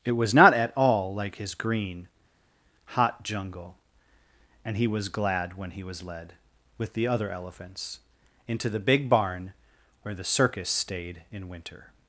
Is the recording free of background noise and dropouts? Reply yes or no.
yes